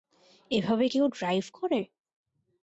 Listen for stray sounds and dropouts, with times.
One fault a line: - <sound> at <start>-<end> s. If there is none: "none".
none